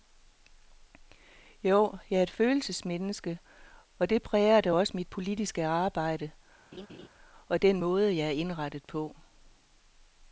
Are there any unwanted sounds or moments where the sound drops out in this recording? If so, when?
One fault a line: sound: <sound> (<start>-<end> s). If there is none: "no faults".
sound: laugh (6.7-7.1 s)